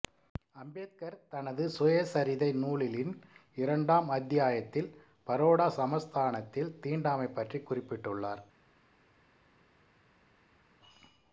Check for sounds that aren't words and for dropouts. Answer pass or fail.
pass